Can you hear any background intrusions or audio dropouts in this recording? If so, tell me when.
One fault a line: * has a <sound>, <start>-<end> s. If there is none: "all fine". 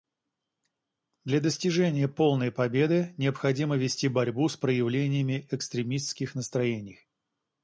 all fine